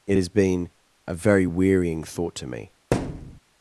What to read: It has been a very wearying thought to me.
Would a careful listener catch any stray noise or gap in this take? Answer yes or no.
yes